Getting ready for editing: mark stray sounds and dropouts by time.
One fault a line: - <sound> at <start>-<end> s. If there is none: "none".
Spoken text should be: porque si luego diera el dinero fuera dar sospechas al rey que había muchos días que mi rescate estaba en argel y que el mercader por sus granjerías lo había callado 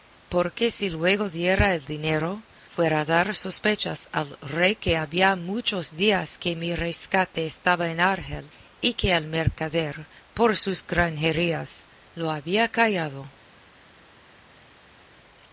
none